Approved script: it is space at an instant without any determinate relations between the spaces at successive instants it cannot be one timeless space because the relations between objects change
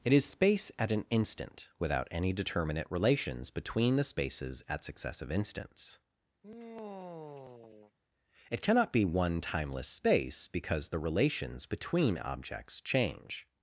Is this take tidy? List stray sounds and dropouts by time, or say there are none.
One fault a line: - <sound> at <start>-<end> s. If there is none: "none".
- sigh at 6.4-7.9 s